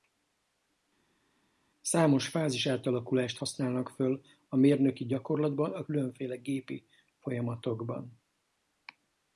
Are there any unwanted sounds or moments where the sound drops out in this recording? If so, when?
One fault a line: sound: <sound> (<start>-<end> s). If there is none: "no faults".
no faults